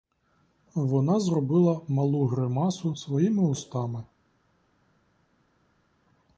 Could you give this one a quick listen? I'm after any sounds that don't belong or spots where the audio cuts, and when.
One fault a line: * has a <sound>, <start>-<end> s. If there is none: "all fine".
all fine